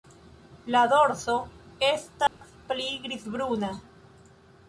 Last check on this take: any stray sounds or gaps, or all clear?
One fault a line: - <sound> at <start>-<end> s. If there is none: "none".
- dropout at 2.3-2.4 s